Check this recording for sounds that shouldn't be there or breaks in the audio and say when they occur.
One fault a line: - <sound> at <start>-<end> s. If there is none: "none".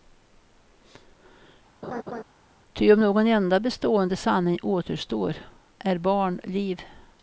- laugh at 1.8-2.2 s